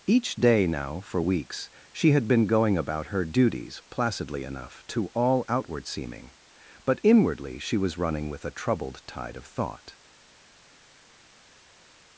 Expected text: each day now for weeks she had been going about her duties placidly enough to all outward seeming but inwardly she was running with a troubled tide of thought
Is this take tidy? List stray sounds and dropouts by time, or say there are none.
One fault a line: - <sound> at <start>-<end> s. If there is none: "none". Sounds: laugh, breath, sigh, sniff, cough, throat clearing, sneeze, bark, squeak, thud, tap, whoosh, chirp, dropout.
none